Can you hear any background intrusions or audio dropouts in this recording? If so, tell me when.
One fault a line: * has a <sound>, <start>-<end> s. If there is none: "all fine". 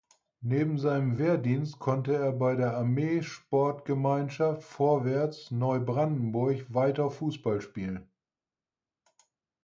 all fine